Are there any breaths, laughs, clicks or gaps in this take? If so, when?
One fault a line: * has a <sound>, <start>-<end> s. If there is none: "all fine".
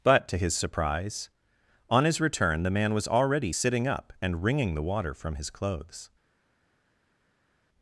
all fine